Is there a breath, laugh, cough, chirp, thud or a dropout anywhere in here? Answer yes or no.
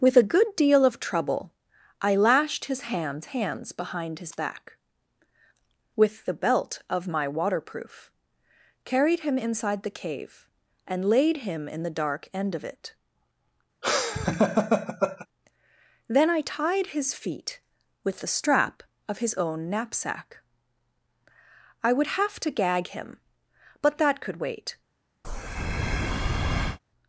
yes